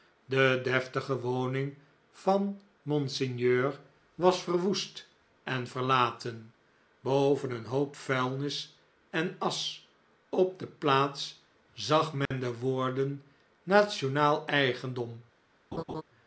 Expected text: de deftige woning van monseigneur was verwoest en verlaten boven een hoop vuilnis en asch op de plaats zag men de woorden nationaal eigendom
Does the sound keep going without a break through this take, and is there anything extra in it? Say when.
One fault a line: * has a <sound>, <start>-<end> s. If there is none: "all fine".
* has a dropout, 12.3-12.3 s
* has a laugh, 15.7-16.0 s